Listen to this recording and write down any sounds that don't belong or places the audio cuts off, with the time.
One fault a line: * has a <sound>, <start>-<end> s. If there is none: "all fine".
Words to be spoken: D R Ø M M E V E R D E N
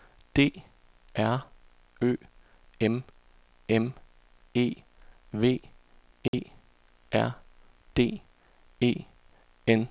* has a dropout, 6.3-6.3 s